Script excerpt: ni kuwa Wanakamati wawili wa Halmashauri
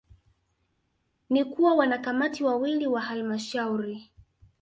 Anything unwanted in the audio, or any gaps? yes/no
no